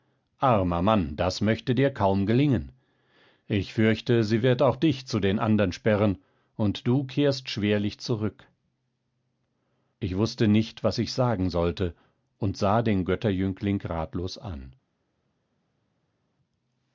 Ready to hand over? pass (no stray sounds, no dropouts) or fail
pass